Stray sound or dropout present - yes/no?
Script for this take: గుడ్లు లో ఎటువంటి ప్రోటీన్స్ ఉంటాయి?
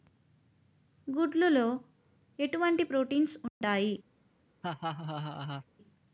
yes